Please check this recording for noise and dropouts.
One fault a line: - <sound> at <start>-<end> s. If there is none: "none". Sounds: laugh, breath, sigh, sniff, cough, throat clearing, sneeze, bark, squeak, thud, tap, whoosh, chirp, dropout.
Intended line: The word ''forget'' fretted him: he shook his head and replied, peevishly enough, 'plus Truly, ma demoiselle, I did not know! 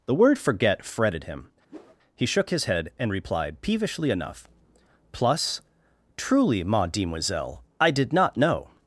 - whoosh at 1.7-2.0 s